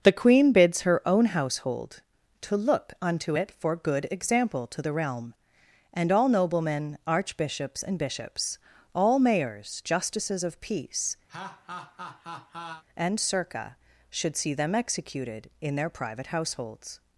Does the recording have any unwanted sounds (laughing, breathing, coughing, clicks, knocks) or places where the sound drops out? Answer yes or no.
yes